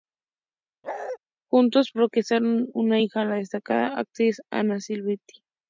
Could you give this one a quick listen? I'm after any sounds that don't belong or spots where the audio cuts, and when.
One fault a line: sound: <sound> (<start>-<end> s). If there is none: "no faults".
sound: bark (0.8-1.2 s)